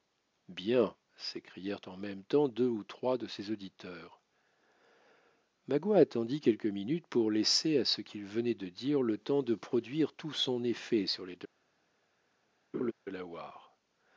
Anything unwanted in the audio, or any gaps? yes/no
yes